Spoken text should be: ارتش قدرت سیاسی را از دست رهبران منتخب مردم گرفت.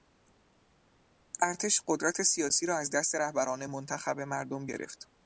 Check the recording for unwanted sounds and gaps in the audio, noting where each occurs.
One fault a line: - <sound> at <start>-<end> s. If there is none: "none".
none